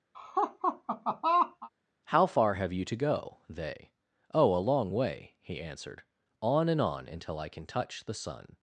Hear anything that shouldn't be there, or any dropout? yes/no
yes